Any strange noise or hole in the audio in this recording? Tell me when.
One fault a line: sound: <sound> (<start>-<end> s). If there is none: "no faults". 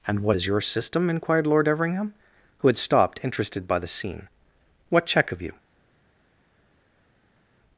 no faults